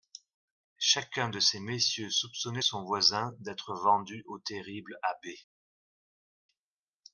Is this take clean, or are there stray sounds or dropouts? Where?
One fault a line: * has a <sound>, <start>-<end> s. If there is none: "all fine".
all fine